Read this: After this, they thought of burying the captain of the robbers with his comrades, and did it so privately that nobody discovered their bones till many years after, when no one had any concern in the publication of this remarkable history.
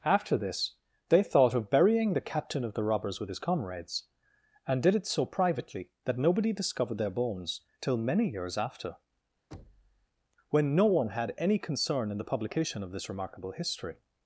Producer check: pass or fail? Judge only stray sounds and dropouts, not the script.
fail